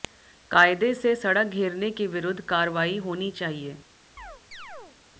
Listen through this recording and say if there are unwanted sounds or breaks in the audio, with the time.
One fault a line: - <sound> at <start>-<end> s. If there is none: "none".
- chirp at 4.2-5.0 s